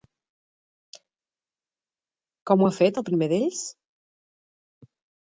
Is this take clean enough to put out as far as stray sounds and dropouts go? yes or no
yes